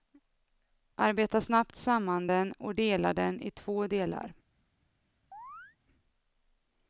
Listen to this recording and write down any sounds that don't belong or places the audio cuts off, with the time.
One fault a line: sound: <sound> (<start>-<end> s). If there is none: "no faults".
sound: chirp (5.3-5.8 s)